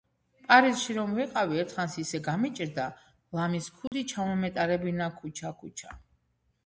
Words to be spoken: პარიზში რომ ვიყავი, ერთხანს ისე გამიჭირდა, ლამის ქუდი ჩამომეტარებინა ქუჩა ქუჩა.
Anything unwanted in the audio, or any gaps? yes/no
yes